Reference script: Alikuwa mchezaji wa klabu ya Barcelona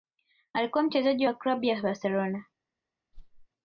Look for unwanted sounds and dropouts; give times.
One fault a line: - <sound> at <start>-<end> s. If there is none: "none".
- whoosh at 3.1-3.5 s